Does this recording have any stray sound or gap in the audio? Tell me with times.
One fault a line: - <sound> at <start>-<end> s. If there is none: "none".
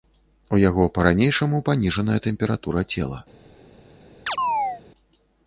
- chirp at 4.3-4.8 s